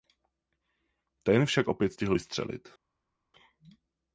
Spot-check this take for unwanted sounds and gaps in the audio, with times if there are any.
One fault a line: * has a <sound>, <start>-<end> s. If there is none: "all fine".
all fine